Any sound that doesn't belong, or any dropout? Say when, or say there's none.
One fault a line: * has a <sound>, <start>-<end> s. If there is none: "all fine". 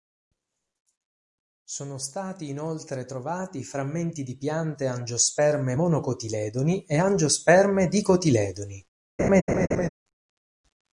* has a laugh, 9.2-9.9 s